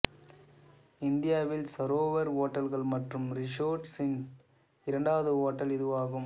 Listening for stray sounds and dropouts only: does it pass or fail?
pass